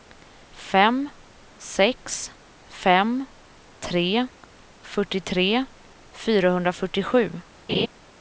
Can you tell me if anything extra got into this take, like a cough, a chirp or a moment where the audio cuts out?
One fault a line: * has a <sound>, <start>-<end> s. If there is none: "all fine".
* has a laugh, 7.7-7.9 s